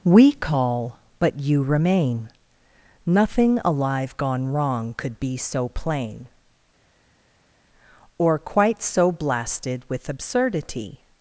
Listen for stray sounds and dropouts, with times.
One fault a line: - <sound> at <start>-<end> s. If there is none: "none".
none